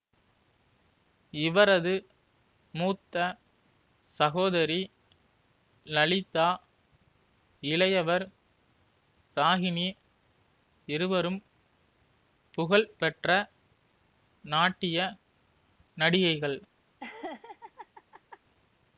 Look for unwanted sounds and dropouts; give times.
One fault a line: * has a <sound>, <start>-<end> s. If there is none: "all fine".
* has a laugh, 17.0-18.4 s